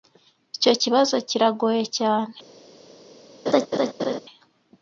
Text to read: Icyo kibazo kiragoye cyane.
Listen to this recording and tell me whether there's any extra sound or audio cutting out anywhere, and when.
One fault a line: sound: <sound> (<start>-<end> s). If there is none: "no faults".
sound: laugh (3.5-4.2 s)